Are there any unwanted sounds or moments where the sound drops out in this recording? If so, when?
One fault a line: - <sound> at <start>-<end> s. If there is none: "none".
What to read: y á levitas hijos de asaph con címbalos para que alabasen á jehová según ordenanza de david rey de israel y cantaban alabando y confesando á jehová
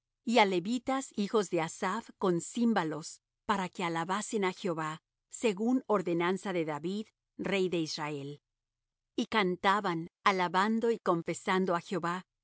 none